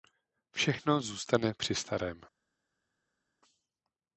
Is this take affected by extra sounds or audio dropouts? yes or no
no